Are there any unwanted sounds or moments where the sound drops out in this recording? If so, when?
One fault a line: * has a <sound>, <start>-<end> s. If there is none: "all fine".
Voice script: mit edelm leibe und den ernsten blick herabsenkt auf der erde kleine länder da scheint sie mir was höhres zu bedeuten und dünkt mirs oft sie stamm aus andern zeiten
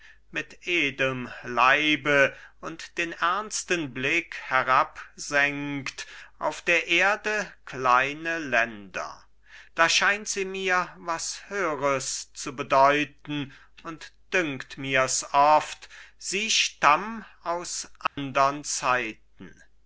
* has a dropout, 18.1-18.2 s